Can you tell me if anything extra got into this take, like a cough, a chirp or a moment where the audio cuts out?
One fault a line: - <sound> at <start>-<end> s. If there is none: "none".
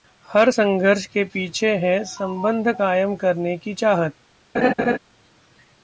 - laugh at 4.5-5.0 s